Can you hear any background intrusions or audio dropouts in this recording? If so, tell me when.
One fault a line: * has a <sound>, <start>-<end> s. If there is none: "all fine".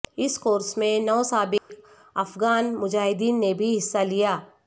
* has a dropout, 1.6-1.7 s